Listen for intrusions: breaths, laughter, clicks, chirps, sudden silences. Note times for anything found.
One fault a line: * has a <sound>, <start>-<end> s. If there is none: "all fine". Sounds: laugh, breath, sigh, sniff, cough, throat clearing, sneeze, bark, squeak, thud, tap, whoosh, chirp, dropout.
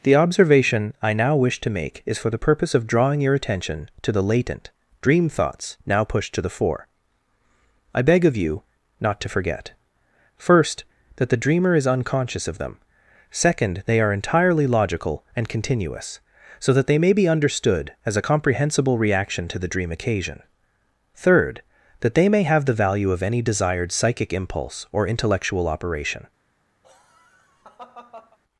* has a laugh, 26.8-28.4 s